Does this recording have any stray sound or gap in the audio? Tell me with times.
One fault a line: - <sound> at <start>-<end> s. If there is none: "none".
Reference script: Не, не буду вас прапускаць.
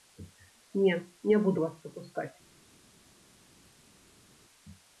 none